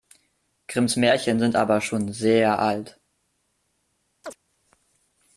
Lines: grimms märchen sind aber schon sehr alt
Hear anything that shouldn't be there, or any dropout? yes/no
yes